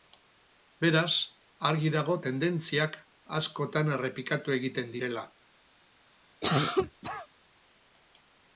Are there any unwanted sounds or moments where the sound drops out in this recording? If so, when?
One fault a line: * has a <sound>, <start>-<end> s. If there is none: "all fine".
* has a cough, 6.4-7.3 s